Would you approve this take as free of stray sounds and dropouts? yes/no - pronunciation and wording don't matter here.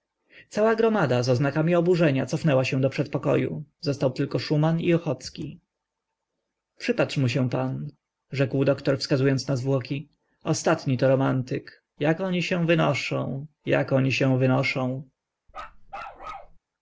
no